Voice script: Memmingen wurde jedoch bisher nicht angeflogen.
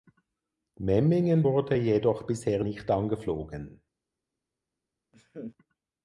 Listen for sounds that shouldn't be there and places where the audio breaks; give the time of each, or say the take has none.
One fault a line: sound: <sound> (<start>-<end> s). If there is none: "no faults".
sound: laugh (5.1-5.6 s)